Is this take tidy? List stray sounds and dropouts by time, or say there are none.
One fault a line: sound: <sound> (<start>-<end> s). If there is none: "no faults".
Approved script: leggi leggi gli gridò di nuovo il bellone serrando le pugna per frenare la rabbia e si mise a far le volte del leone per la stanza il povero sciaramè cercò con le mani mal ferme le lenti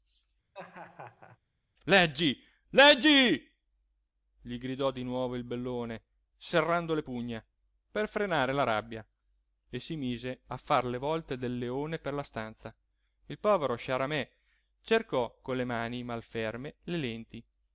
sound: laugh (0.5-1.4 s)